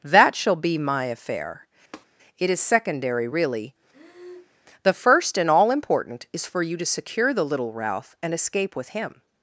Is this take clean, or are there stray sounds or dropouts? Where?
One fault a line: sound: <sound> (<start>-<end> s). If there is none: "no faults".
sound: tap (1.9-2.1 s)
sound: breath (3.9-4.6 s)